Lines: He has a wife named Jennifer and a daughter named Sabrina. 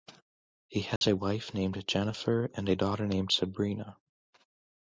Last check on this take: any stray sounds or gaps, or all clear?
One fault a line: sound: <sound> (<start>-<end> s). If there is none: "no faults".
sound: dropout (1.0-1.0 s)